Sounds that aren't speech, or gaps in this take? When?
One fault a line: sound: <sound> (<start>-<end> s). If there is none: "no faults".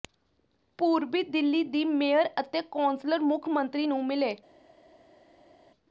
no faults